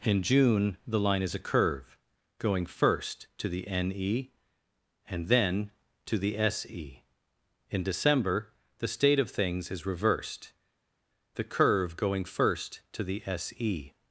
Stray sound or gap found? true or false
false